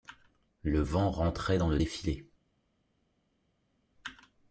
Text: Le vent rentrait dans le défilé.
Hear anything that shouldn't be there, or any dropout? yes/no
no